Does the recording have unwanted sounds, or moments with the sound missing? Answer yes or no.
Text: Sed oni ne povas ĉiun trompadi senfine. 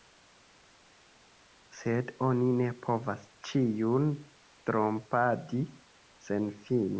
no